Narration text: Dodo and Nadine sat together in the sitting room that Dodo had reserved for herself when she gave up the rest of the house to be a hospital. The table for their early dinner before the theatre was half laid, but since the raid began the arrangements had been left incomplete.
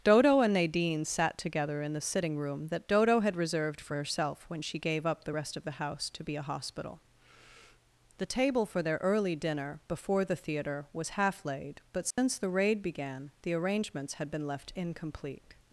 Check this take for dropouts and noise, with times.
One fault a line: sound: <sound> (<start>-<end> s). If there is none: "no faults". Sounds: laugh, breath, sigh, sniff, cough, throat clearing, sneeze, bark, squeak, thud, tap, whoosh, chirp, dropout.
sound: dropout (12.1-12.2 s)